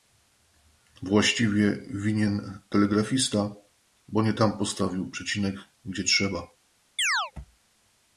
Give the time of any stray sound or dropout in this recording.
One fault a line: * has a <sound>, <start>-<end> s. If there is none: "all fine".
* has a chirp, 7.0-7.3 s